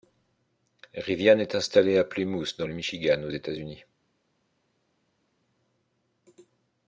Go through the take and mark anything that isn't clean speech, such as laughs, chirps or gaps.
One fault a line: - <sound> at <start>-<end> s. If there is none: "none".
none